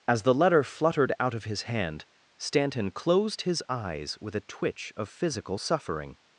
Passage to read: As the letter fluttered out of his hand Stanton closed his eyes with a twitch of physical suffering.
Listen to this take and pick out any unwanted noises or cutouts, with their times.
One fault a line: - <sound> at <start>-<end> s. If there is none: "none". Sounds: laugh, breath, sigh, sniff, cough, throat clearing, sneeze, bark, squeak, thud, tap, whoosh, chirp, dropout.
none